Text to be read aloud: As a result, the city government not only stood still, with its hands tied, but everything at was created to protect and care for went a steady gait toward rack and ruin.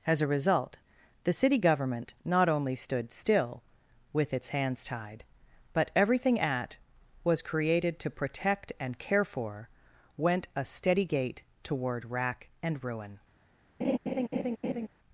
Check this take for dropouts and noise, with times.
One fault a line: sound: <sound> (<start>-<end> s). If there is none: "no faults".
sound: laugh (13.8-14.9 s)